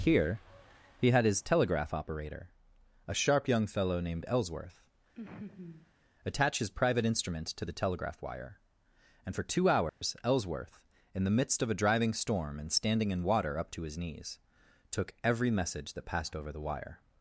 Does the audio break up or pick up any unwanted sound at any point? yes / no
yes